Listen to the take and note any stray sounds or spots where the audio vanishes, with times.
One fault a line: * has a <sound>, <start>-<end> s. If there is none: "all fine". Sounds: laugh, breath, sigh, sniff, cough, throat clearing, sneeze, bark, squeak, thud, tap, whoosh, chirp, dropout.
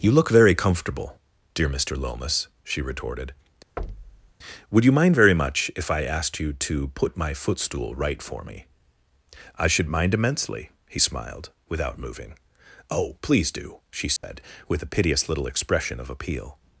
* has a thud, 3.8-4.3 s
* has a dropout, 14.2-14.2 s